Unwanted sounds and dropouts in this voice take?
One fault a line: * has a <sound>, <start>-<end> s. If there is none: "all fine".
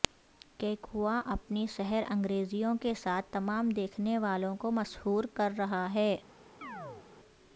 * has a chirp, 6.6-7.1 s